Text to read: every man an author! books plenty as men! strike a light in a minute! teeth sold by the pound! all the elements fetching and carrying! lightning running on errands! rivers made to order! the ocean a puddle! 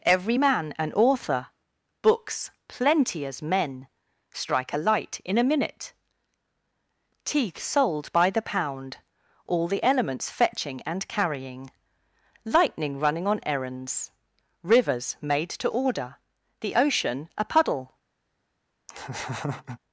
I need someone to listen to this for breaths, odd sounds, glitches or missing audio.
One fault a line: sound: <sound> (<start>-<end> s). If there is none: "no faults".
sound: laugh (18.9-19.8 s)